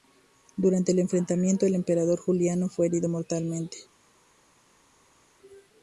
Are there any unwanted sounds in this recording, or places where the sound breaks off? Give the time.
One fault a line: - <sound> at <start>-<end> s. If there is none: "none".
none